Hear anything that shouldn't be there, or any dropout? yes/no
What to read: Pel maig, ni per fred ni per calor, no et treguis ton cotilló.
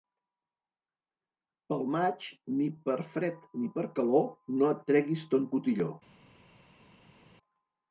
no